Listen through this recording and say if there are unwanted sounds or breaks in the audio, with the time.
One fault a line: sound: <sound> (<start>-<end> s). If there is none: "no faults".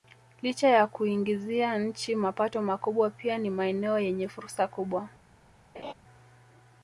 sound: laugh (5.7-5.9 s)